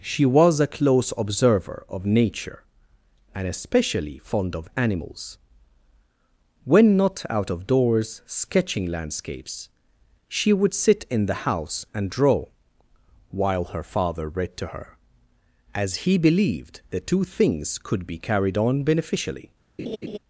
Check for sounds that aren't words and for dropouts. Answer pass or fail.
fail